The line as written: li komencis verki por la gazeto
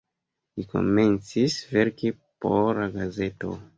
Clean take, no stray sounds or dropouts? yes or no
yes